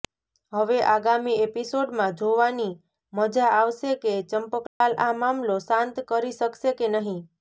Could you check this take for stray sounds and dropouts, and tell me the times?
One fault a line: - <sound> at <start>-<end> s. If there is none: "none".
- dropout at 4.7-4.8 s